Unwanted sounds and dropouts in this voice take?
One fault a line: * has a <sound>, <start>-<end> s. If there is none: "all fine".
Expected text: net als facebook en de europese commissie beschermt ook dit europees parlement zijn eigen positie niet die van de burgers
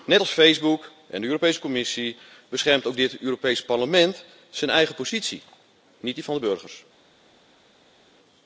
all fine